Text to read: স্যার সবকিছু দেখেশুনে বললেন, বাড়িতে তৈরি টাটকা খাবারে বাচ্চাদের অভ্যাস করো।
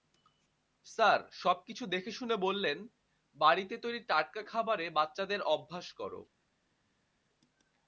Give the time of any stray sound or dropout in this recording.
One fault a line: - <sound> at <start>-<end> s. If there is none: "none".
none